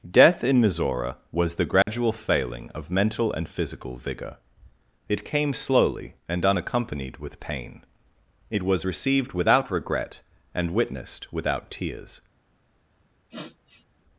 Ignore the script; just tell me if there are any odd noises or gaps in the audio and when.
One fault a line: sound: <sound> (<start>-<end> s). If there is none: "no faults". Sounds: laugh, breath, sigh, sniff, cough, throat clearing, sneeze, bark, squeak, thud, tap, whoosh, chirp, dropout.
sound: dropout (1.8-1.9 s)
sound: sniff (13.3-13.9 s)